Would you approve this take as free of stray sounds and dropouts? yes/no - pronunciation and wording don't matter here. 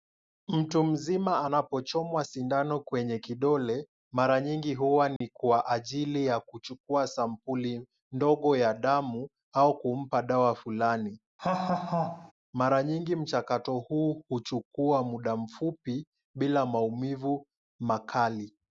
no